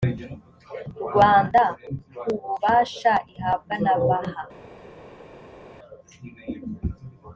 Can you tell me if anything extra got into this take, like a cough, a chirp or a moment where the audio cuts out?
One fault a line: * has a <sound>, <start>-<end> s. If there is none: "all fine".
all fine